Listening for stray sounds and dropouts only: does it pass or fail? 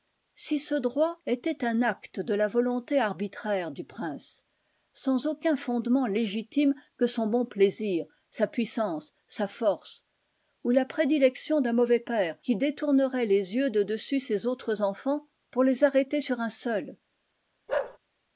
fail